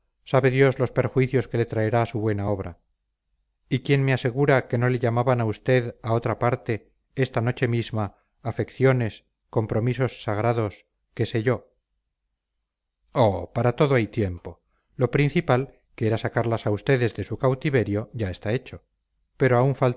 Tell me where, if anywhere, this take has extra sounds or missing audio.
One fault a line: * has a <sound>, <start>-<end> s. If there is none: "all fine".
all fine